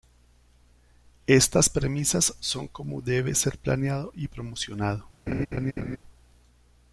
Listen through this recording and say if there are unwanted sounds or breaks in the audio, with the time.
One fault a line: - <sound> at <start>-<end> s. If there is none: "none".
- laugh at 5.3-6.0 s